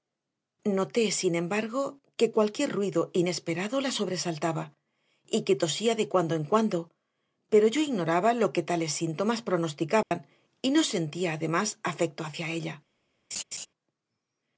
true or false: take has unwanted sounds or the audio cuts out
true